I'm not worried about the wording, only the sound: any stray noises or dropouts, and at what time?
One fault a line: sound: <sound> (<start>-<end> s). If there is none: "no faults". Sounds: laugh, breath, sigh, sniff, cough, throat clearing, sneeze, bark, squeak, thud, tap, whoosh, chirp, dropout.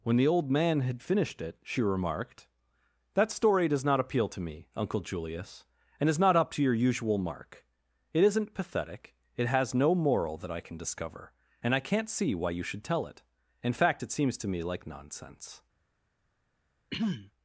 sound: throat clearing (16.9-17.3 s)